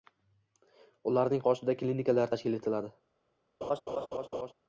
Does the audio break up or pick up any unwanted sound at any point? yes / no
yes